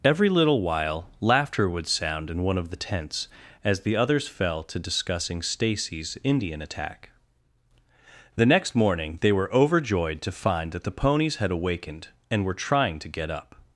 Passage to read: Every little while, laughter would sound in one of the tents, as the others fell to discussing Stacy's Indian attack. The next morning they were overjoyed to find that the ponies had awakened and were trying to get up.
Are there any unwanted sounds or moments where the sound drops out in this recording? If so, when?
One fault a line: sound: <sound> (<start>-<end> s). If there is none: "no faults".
no faults